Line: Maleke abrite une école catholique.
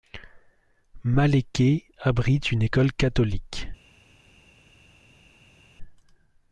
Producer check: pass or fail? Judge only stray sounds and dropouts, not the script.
pass